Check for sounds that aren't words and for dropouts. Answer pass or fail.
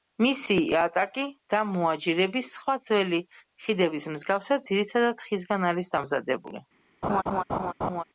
fail